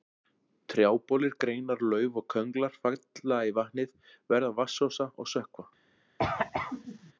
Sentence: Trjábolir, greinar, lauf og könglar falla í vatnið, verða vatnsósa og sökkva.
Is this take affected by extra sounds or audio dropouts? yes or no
yes